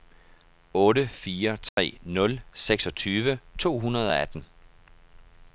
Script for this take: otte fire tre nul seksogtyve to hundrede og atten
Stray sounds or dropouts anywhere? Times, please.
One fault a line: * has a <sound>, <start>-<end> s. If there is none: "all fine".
* has a dropout, 1.7-1.8 s